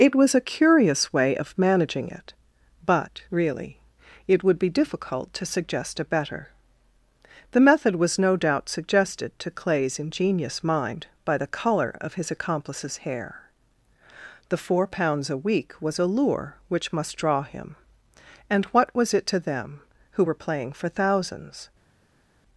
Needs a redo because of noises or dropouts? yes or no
no